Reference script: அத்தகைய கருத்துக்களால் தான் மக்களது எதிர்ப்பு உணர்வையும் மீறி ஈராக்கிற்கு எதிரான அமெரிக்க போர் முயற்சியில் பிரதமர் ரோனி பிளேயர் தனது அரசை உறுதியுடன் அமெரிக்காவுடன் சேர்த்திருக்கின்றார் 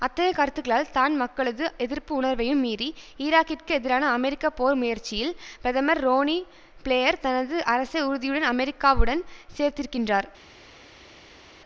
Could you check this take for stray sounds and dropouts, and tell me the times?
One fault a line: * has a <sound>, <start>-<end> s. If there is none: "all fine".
all fine